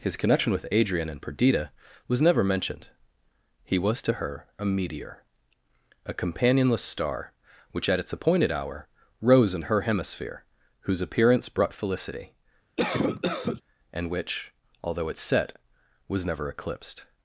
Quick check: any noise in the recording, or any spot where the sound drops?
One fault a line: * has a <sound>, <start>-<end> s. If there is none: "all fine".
* has a cough, 12.8-13.6 s